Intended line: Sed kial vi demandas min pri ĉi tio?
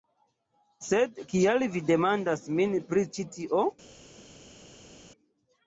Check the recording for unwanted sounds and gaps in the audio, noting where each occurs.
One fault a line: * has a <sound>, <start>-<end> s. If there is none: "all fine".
all fine